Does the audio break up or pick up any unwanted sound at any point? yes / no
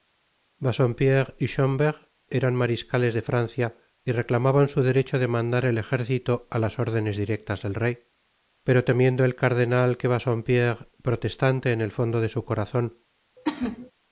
yes